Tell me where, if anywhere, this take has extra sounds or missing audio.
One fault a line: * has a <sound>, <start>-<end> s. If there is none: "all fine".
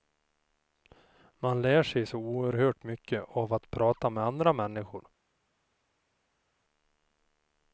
all fine